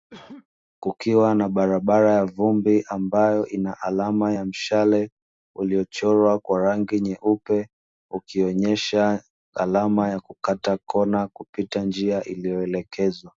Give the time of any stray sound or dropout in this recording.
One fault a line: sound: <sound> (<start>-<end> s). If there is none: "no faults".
sound: cough (0.1-0.5 s)